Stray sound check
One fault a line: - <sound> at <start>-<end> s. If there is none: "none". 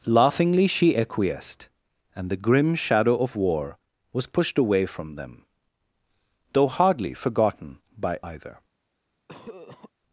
- cough at 9.3-9.9 s